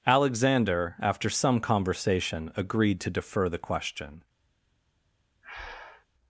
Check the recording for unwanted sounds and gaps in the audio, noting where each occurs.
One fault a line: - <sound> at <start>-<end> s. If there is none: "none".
- breath at 5.4-6.1 s